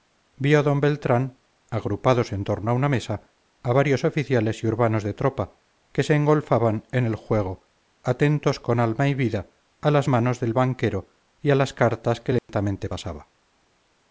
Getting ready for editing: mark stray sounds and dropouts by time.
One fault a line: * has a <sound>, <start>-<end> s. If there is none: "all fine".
* has a dropout, 12.4-12.5 s